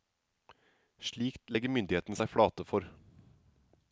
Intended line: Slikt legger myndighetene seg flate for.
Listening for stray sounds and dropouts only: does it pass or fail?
pass